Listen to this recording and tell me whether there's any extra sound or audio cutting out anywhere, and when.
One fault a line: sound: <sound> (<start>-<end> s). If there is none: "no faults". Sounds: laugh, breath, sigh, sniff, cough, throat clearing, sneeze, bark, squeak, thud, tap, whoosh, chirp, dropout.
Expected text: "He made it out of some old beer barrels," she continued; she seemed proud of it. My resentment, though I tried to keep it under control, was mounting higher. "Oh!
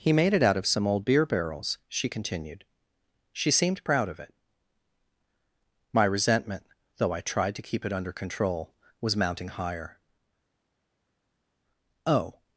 no faults